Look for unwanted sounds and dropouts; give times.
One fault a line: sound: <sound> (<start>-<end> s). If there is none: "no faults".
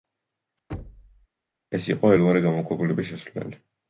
sound: thud (0.7-1.3 s)